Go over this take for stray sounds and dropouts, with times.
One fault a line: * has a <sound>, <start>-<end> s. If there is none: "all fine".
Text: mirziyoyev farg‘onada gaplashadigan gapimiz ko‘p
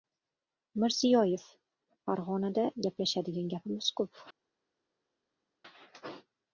all fine